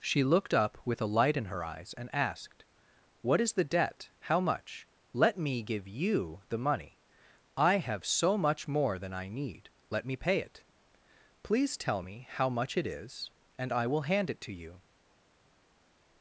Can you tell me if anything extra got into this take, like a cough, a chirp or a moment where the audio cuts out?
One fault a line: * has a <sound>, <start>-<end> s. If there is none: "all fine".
all fine